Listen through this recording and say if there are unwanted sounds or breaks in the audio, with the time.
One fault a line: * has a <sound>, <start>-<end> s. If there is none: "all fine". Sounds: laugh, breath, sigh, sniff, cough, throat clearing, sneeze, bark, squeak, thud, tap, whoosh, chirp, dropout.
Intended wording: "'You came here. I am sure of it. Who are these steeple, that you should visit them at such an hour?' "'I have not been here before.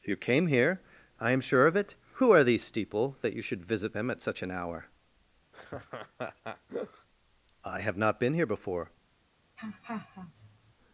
* has a laugh, 5.5-7.1 s
* has a laugh, 9.6-10.7 s